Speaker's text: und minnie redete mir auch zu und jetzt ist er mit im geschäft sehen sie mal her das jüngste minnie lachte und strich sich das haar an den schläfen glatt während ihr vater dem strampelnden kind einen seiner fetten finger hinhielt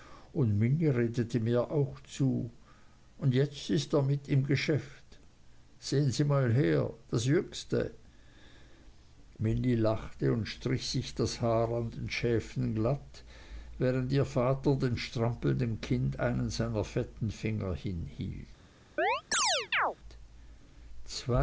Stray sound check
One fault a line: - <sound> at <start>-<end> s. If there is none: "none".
- chirp at 19.0-20.0 s